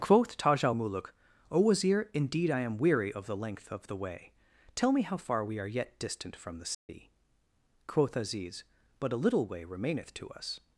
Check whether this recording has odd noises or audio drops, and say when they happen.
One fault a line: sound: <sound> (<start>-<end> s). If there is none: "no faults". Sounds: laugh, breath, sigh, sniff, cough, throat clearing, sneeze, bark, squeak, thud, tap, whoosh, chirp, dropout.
sound: dropout (6.7-6.9 s)